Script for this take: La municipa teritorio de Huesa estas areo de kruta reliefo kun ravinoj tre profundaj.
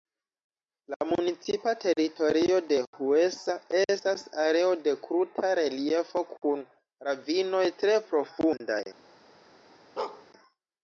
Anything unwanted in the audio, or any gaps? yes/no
yes